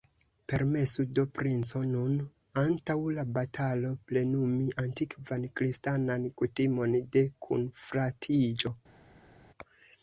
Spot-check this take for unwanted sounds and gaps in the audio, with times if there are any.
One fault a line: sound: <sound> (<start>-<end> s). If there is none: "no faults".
no faults